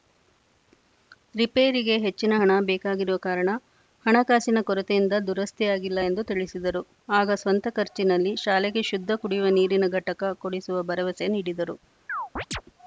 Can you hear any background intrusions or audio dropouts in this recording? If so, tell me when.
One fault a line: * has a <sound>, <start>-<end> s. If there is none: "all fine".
* has a chirp, 12.1-12.6 s